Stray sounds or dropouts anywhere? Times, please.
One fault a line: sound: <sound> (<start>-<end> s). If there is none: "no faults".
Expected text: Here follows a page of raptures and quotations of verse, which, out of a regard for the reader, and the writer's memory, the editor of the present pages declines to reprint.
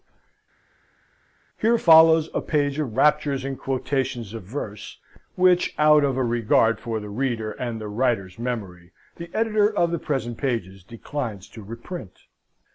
no faults